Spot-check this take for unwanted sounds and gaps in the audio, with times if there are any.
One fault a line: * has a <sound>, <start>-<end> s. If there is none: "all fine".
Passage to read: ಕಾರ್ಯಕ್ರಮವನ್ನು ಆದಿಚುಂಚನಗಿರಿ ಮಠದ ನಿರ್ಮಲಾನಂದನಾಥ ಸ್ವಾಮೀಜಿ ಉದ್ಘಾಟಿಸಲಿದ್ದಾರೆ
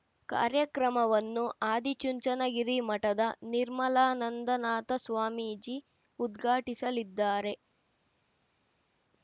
all fine